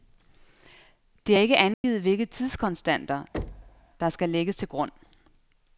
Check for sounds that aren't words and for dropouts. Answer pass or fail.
fail